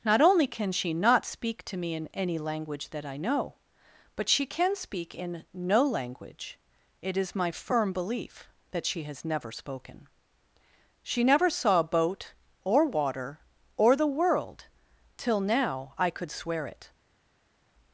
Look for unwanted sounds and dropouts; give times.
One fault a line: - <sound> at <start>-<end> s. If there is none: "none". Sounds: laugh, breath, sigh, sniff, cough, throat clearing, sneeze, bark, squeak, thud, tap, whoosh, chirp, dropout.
none